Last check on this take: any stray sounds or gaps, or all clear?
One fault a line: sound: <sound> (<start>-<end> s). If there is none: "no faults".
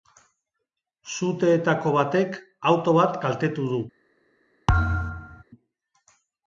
sound: thud (4.7-5.4 s)